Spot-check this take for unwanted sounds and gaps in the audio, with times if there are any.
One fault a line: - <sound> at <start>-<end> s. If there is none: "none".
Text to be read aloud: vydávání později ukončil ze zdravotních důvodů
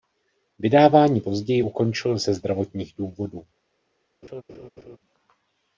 - laugh at 4.2-5.0 s